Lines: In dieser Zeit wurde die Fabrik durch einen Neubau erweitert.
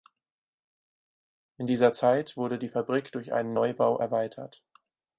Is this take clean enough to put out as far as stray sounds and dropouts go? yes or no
yes